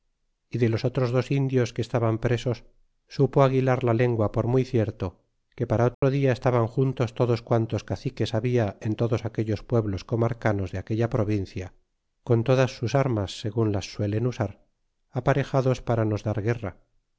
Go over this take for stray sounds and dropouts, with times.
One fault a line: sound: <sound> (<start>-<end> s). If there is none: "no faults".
sound: dropout (5.9-6.0 s)